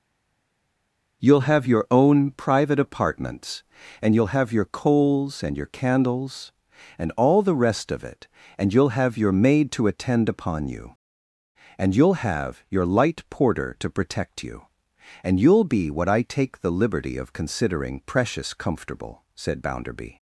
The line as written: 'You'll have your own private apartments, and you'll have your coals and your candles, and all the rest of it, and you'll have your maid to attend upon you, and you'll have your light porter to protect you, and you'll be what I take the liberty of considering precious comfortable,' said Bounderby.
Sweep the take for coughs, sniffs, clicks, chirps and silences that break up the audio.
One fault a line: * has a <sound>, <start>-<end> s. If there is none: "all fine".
all fine